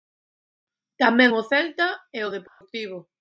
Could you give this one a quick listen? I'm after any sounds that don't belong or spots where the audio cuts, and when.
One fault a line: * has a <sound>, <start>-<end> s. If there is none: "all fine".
* has a dropout, 2.5-2.6 s